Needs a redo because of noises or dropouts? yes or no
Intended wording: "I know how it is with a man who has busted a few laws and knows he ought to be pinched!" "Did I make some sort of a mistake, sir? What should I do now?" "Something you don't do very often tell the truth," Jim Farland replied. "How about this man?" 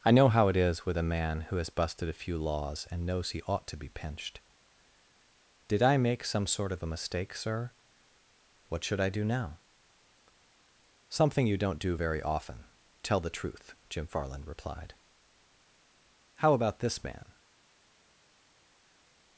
no